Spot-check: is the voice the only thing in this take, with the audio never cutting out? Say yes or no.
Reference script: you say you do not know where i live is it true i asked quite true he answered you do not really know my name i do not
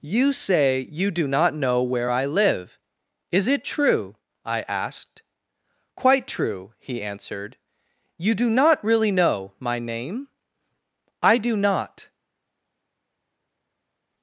yes